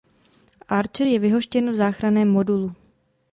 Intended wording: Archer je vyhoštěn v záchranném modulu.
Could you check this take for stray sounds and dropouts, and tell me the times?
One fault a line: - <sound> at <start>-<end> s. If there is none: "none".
none